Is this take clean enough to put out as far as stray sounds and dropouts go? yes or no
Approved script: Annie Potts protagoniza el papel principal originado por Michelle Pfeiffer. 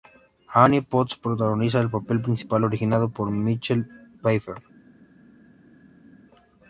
yes